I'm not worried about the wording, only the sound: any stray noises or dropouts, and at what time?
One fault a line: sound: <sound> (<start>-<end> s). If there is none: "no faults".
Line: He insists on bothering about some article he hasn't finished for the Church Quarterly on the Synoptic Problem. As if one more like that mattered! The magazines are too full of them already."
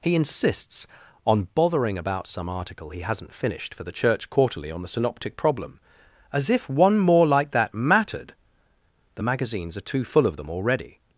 no faults